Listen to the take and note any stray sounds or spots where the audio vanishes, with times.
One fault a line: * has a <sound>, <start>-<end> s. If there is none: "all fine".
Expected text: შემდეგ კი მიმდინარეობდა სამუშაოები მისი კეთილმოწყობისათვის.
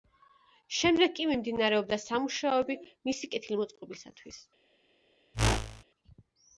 * has a whoosh, 5.3-5.8 s